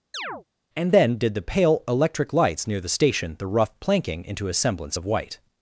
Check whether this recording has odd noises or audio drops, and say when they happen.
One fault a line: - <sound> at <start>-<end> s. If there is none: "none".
- chirp at 0.1-0.4 s